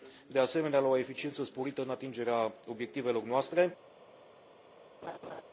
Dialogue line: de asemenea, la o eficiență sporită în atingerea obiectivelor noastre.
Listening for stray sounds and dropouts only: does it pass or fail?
fail